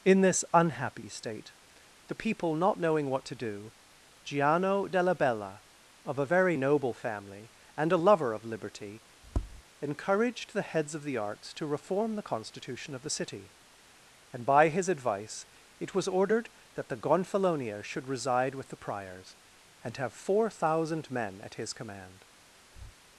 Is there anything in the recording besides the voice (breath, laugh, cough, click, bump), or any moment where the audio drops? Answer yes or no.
yes